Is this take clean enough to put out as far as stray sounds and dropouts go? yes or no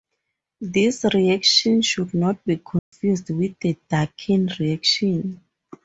no